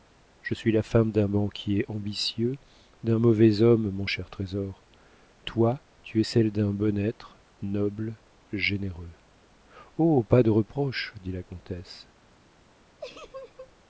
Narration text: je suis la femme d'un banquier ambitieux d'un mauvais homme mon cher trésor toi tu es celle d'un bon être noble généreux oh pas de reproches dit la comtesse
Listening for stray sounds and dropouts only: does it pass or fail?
fail